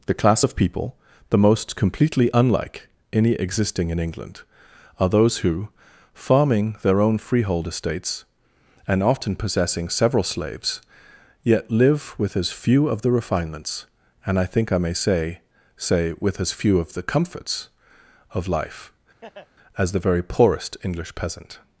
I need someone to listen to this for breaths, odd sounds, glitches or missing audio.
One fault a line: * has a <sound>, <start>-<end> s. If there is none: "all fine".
* has a laugh, 19.2-19.5 s